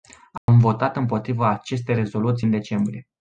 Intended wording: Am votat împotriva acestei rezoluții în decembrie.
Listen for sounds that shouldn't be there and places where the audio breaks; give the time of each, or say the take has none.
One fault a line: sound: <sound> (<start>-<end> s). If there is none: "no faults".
sound: dropout (0.4-0.5 s)